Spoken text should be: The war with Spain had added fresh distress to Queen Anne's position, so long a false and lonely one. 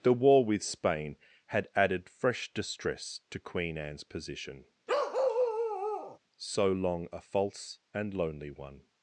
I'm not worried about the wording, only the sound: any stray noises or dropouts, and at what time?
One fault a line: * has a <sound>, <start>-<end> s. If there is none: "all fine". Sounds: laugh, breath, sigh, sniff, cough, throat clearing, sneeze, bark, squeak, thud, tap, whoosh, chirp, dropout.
* has a bark, 4.9-6.2 s